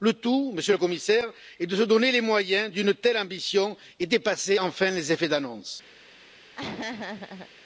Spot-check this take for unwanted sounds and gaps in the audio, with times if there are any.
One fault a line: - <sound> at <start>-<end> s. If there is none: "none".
- laugh at 6.5-7.5 s